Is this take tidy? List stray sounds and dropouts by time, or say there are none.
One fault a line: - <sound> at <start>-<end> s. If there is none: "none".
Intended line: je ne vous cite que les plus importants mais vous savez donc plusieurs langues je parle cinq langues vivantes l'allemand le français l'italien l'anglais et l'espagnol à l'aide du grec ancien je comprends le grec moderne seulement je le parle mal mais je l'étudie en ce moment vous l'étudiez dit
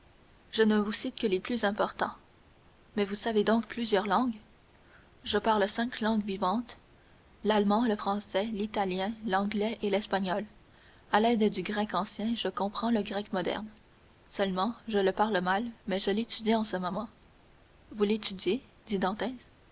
none